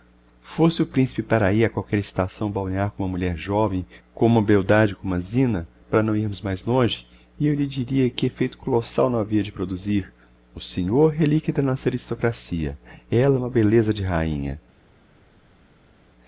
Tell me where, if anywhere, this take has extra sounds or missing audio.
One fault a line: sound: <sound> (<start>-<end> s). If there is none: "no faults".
no faults